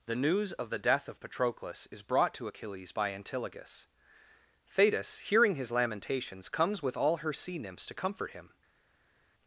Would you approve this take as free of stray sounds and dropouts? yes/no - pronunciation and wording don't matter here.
yes